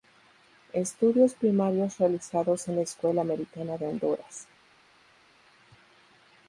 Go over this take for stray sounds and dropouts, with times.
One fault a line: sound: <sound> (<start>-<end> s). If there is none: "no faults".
no faults